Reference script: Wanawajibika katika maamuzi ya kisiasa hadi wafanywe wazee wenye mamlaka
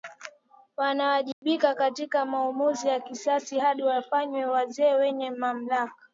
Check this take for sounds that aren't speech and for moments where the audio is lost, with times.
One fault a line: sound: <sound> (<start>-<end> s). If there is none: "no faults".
sound: dropout (1.3-1.4 s)